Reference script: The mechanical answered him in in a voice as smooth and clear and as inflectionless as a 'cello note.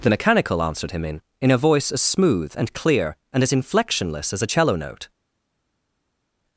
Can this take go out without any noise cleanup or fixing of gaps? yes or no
yes